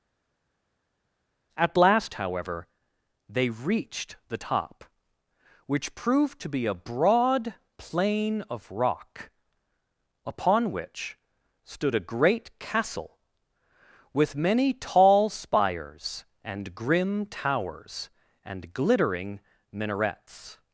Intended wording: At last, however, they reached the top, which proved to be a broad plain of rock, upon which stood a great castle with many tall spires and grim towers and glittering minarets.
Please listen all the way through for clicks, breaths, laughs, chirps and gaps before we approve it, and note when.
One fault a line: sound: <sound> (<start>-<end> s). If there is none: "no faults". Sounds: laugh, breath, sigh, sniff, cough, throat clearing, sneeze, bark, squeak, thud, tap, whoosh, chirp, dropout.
no faults